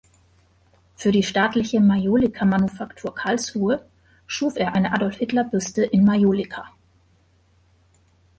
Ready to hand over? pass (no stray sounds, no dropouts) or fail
pass